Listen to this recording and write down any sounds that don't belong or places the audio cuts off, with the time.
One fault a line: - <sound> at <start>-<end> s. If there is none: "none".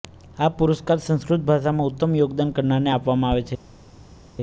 none